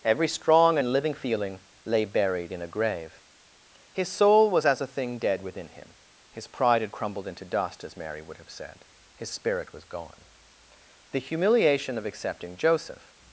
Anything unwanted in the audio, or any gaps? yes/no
no